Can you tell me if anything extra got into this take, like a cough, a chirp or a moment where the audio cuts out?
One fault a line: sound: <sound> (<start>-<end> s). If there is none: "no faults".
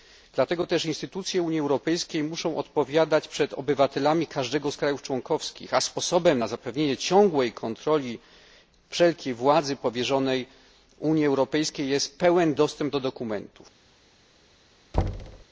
sound: thud (14.9-15.4 s)